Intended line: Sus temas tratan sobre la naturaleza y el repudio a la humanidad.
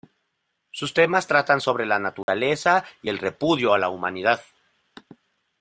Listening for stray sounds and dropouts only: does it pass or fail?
fail